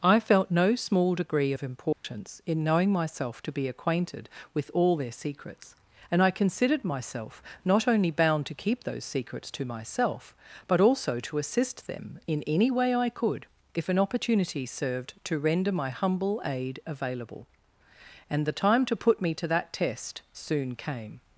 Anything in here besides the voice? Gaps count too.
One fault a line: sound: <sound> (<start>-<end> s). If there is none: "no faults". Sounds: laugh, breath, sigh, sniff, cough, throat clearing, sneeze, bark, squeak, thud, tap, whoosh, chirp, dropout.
sound: dropout (1.9-2.0 s)